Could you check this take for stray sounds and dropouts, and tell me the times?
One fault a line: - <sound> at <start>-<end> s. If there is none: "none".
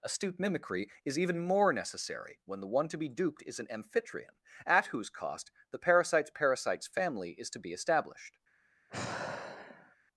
- sigh at 8.9-10.0 s